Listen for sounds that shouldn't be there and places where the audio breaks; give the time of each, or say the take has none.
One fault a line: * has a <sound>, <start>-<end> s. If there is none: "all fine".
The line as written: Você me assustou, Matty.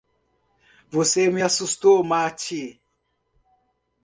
all fine